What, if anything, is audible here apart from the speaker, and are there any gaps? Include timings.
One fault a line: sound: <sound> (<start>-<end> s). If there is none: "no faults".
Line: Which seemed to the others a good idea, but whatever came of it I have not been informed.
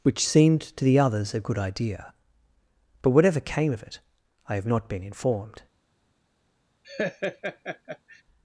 sound: laugh (6.8-8.2 s)